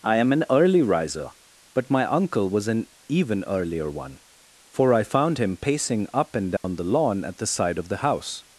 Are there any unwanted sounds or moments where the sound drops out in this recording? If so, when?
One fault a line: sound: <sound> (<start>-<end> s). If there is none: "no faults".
sound: dropout (6.6-6.6 s)